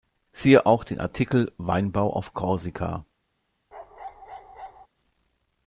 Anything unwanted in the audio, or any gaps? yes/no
yes